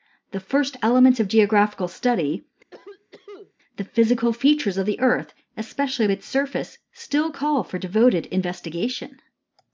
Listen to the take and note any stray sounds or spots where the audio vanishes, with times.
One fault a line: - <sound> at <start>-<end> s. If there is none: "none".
- cough at 2.7-3.5 s